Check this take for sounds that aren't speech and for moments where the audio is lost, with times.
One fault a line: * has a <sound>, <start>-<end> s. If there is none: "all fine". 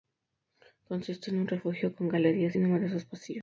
all fine